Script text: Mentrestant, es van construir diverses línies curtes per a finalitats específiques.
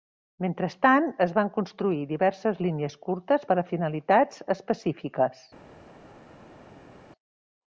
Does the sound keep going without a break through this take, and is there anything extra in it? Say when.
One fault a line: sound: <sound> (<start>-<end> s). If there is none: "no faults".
no faults